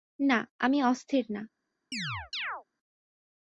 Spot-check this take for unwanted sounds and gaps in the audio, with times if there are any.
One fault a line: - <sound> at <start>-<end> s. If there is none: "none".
- chirp at 1.9-2.6 s